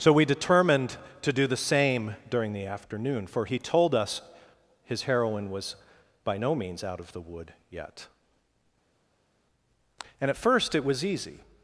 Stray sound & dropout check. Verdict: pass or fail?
pass